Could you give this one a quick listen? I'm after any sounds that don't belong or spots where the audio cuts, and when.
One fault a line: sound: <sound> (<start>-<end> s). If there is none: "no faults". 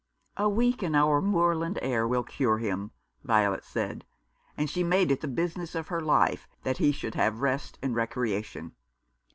no faults